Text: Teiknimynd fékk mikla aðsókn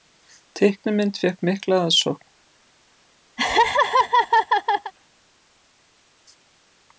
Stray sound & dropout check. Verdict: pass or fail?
fail